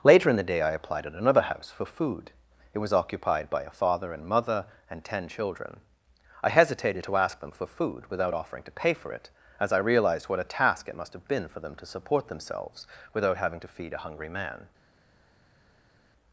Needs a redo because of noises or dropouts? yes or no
no